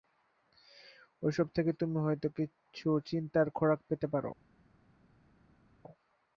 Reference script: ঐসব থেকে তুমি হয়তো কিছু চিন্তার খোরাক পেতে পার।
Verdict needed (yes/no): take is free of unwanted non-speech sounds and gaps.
yes